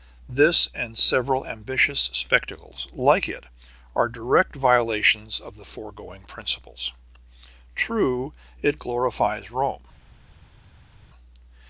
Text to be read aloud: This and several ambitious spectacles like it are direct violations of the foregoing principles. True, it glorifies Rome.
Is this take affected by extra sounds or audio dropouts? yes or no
no